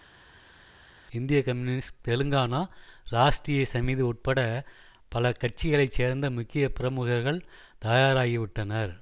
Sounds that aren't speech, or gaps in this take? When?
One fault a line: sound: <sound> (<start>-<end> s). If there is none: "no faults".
no faults